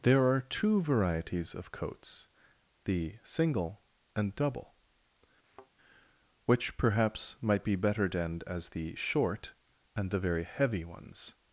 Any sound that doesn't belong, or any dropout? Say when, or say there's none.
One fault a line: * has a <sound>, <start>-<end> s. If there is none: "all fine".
* has a thud, 5.4-5.7 s